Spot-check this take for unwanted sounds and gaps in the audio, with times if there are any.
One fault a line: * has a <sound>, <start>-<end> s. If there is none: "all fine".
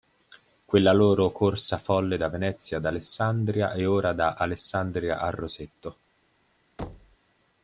* has a thud, 6.8-7.2 s